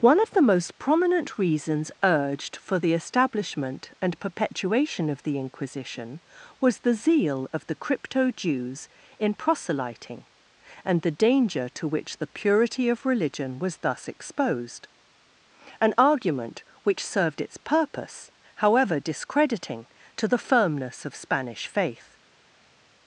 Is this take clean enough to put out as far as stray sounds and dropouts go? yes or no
yes